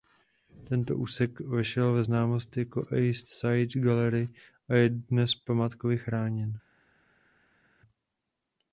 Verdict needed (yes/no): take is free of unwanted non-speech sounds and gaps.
yes